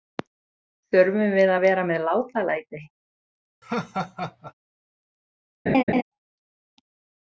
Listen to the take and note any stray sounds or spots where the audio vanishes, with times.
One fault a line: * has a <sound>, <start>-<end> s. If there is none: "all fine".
* has a laugh, 3.6-4.5 s
* has a laugh, 5.7-6.0 s